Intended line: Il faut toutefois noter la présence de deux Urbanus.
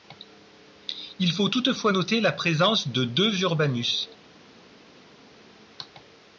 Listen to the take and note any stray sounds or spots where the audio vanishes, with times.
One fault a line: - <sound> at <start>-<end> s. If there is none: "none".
none